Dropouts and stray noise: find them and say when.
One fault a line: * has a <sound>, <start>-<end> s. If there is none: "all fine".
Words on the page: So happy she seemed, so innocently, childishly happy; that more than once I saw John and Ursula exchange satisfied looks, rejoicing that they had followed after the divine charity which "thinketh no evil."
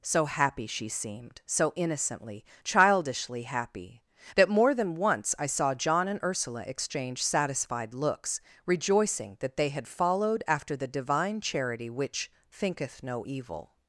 all fine